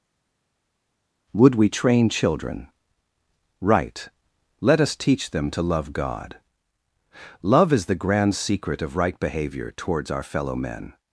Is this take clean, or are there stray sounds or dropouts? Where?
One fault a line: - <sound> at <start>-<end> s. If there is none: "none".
none